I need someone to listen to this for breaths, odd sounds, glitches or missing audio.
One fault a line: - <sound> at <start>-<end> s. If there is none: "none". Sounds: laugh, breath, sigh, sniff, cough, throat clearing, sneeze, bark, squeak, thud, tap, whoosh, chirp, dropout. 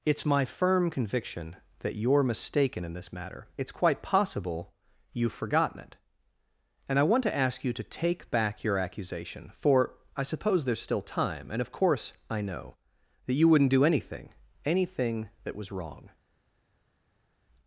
none